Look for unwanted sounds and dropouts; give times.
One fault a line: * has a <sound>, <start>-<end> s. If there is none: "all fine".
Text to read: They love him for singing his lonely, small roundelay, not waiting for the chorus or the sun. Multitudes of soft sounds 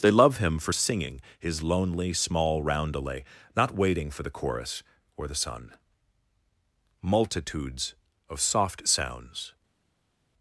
all fine